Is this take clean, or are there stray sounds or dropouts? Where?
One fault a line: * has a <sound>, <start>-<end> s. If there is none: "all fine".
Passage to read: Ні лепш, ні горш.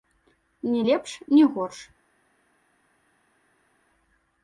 all fine